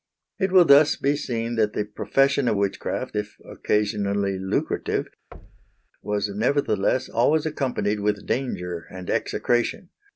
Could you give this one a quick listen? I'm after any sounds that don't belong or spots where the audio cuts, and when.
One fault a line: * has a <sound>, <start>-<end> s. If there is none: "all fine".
* has a thud, 5.3-5.9 s